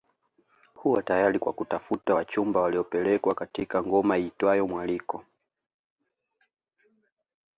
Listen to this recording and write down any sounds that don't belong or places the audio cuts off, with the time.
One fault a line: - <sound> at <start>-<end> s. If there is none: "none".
none